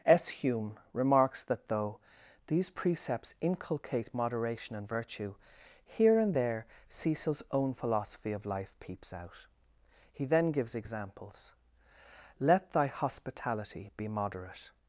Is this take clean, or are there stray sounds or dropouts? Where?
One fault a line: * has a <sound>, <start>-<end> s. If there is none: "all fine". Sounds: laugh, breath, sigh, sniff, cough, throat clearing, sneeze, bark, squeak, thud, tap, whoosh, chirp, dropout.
all fine